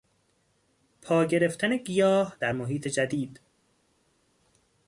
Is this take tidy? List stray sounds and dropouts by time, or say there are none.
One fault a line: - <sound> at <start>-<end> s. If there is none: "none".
none